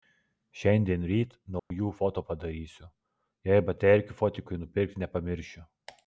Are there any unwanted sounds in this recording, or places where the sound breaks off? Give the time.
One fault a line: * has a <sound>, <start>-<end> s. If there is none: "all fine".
* has a dropout, 1.6-1.7 s